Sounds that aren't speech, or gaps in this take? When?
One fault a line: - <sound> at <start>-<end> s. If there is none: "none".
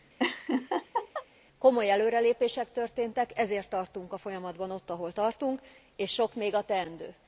- laugh at 0.2-1.3 s